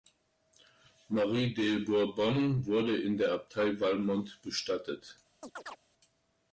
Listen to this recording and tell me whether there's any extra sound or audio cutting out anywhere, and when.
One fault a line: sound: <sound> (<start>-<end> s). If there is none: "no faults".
sound: chirp (5.4-5.8 s)